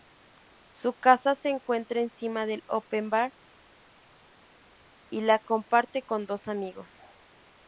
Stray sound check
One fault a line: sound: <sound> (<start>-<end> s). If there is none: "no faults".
no faults